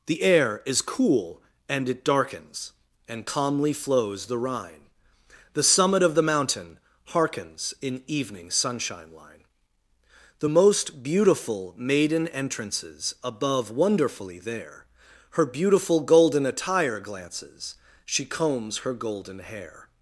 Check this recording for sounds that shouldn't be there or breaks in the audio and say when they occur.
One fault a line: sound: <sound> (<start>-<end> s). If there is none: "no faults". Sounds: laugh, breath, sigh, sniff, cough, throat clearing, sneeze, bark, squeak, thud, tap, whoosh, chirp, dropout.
no faults